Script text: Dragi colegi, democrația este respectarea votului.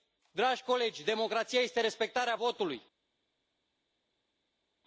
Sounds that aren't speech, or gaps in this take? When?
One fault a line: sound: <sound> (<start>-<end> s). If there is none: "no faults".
no faults